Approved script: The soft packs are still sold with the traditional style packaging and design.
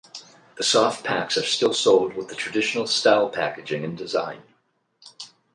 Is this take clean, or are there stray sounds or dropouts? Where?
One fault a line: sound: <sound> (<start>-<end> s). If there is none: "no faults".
no faults